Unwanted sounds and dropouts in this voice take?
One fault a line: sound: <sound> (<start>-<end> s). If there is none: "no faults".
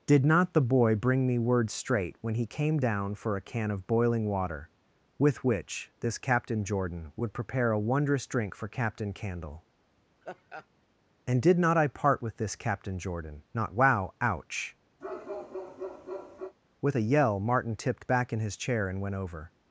sound: laugh (10.2-10.7 s)
sound: bark (15.0-16.6 s)